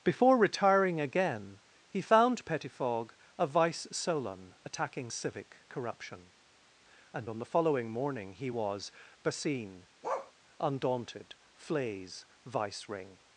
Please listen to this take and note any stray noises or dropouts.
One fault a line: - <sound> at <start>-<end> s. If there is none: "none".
- bark at 10.0-10.3 s